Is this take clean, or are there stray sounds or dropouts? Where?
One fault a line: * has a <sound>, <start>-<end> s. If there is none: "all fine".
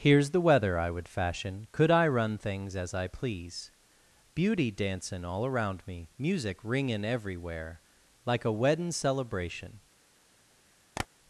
* has a tap, 11.0-11.1 s